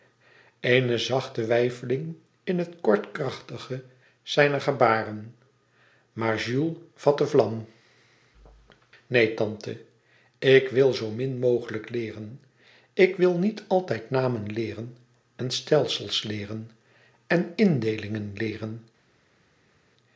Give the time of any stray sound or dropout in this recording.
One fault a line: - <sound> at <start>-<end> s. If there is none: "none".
none